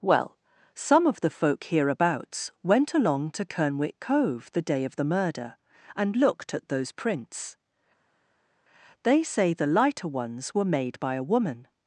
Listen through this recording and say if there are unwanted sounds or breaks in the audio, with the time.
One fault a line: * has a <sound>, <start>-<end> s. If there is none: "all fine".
all fine